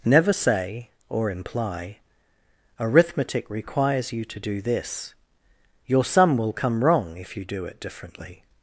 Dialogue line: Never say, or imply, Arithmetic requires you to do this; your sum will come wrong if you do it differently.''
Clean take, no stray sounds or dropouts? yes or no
yes